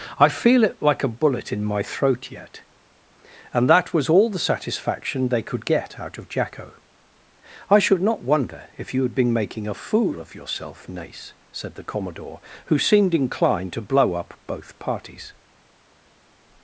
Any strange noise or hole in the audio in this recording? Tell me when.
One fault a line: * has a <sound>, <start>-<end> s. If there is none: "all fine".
all fine